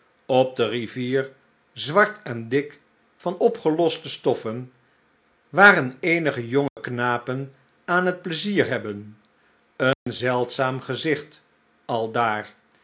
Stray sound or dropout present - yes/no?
yes